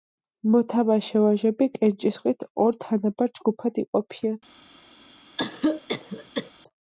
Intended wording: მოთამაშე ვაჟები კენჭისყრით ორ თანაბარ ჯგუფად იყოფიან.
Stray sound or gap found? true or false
true